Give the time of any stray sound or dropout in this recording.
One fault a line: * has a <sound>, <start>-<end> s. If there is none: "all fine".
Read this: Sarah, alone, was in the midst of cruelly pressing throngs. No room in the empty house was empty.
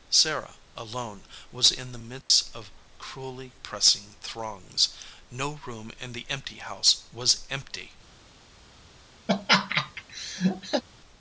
* has a dropout, 2.2-2.3 s
* has a laugh, 9.3-10.8 s